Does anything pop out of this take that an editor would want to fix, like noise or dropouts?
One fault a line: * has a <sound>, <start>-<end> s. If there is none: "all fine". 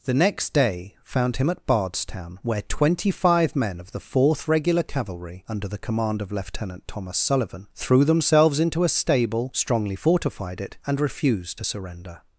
all fine